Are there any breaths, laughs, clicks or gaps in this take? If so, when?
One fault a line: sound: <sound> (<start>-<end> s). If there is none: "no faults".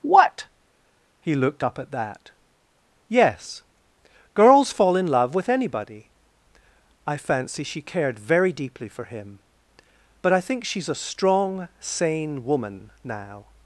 no faults